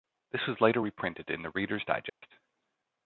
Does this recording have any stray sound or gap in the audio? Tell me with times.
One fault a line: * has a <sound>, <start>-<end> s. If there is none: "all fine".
* has a dropout, 2.1-2.2 s